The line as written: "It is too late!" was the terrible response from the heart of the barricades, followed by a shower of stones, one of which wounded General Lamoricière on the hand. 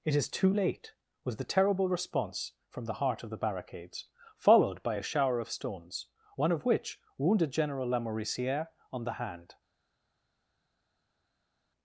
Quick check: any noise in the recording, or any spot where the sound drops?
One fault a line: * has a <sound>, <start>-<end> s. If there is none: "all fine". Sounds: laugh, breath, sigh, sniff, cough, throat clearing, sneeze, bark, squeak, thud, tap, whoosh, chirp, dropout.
all fine